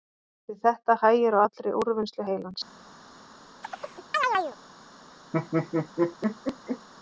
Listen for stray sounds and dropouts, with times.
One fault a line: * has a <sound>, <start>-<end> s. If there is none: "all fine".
* has a chirp, 3.6-4.6 s
* has a laugh, 5.3-6.9 s